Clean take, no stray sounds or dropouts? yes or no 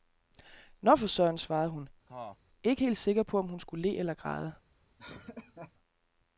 no